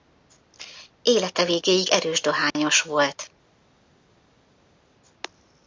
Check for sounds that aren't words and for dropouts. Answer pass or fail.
pass